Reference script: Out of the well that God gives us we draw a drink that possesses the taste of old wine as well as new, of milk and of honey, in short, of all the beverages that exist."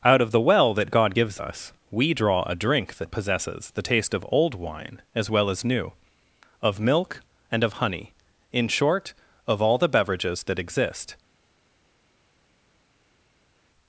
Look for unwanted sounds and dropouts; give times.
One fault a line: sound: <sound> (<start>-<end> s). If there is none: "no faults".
no faults